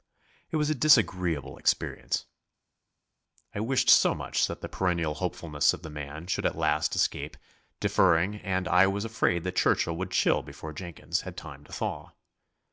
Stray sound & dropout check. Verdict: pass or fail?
pass